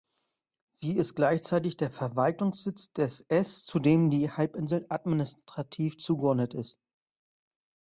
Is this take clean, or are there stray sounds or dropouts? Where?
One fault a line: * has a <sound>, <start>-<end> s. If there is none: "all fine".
all fine